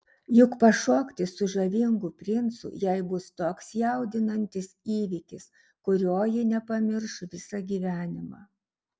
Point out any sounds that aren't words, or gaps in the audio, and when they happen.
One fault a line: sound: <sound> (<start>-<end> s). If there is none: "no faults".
no faults